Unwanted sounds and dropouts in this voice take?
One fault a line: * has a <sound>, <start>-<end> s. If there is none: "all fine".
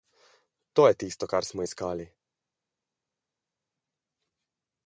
all fine